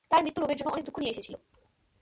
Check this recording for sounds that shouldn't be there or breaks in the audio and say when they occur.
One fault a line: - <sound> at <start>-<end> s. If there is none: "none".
none